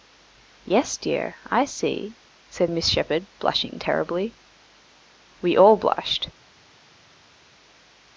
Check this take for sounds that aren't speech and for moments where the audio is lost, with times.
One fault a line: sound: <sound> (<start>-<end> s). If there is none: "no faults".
no faults